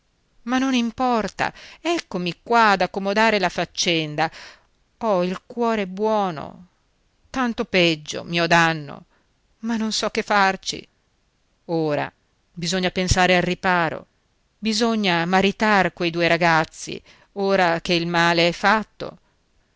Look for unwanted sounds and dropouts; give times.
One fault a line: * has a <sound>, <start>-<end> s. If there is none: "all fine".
all fine